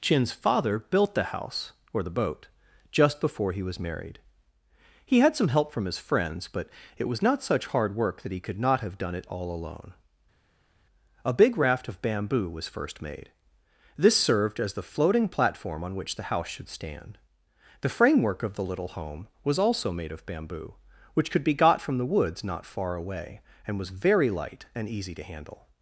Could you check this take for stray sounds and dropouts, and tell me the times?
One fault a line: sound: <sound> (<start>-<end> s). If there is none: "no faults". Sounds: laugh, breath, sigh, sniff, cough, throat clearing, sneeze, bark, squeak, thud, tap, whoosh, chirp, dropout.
no faults